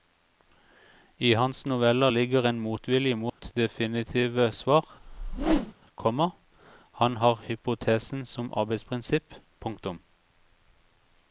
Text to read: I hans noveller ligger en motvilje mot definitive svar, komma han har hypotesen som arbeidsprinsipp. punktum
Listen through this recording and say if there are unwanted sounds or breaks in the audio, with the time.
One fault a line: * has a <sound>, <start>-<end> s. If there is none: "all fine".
* has a dropout, 3.3-3.4 s
* has a whoosh, 5.0-5.7 s